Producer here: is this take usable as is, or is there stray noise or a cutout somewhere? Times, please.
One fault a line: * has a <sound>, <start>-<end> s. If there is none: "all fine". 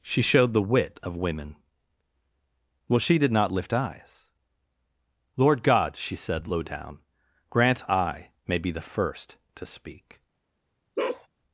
* has a bark, 11.0-11.3 s